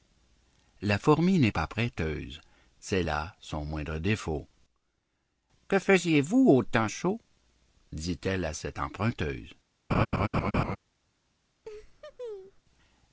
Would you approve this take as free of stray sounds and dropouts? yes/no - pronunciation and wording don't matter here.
no